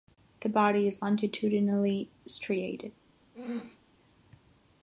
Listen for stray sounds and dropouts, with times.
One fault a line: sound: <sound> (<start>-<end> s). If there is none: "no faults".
sound: throat clearing (3.3-3.8 s)